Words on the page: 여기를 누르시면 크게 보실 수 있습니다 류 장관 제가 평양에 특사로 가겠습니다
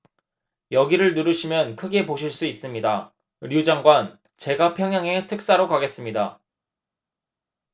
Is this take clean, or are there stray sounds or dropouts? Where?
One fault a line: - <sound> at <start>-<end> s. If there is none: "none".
none